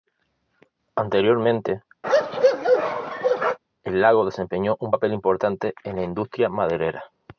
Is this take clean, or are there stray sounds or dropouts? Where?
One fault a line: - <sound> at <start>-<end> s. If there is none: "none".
- bark at 2.0-3.6 s